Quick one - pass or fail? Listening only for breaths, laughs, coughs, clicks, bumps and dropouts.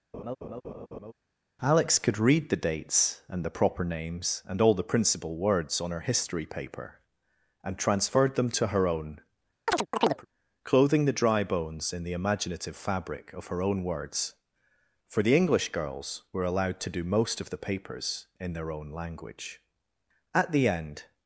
fail